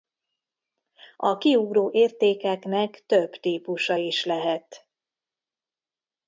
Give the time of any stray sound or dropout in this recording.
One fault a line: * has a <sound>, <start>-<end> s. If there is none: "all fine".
all fine